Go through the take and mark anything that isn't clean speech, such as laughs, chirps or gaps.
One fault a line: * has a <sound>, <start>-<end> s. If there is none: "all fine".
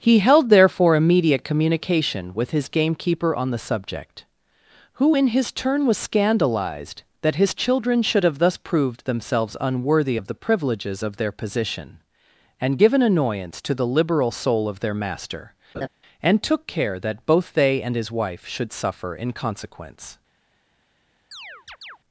* has a laugh, 15.7-15.9 s
* has a chirp, 21.3-22.0 s